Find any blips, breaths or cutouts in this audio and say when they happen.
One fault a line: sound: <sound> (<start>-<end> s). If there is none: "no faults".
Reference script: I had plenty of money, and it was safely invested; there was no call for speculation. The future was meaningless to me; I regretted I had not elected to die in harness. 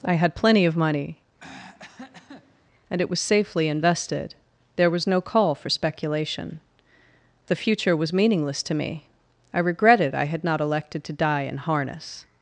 sound: throat clearing (1.4-2.6 s)